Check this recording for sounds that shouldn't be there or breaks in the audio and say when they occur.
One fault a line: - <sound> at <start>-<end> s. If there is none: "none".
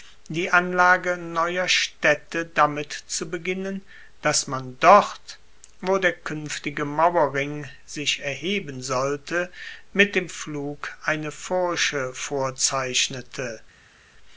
none